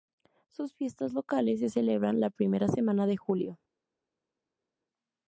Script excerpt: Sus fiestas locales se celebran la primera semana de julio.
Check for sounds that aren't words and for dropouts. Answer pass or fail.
pass